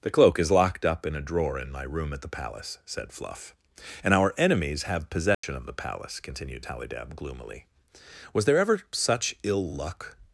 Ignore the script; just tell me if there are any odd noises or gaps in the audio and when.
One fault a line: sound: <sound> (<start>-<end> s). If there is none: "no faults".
sound: dropout (5.3-5.4 s)